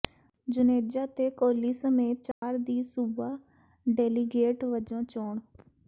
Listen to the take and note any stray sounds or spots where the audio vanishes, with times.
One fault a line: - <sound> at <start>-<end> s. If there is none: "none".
- dropout at 2.3-2.4 s